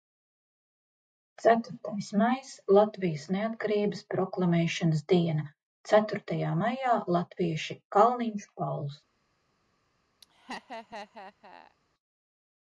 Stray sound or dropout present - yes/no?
yes